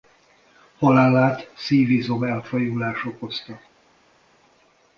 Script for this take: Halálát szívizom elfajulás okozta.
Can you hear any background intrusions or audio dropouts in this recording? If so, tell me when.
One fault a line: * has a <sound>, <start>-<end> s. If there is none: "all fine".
all fine